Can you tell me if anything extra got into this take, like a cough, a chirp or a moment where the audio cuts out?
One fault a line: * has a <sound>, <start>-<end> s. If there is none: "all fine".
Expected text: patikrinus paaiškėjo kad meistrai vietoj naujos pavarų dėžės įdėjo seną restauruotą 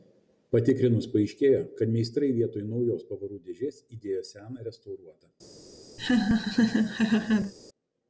* has a laugh, 6.0-7.5 s